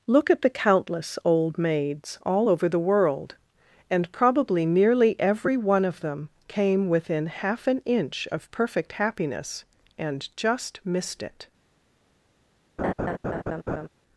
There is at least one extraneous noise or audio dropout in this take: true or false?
true